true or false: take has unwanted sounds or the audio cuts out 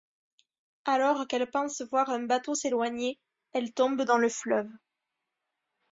false